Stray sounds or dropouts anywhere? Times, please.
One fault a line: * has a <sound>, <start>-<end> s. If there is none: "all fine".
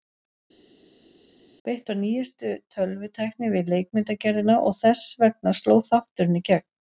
all fine